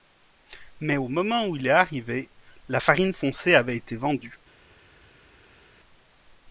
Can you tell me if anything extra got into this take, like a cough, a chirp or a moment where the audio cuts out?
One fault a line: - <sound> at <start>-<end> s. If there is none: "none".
none